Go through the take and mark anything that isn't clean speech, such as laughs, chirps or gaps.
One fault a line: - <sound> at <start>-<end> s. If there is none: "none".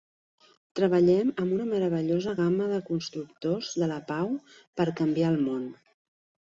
none